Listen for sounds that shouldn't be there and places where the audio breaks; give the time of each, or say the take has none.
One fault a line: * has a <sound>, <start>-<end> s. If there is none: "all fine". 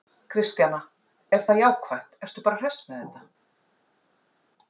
all fine